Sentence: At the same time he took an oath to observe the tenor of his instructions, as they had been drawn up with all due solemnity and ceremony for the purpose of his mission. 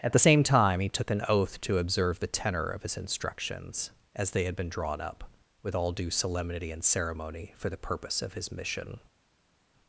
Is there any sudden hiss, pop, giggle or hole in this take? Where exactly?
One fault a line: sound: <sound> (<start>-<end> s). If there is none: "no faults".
no faults